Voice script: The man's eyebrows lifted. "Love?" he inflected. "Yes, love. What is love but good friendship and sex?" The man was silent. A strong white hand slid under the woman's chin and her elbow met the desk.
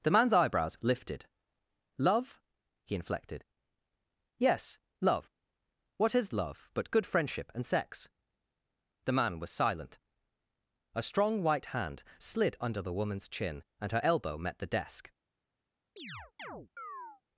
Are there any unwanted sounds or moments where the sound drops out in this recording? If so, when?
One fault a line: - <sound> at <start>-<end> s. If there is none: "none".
- chirp at 16.0-17.2 s